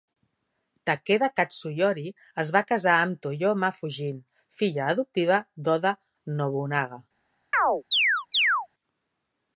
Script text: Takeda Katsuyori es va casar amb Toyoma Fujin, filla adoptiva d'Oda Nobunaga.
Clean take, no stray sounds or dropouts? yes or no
no